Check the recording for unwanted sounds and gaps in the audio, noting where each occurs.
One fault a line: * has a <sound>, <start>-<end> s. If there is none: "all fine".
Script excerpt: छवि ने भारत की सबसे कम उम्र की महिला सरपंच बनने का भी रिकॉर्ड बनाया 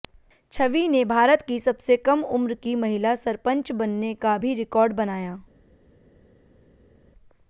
all fine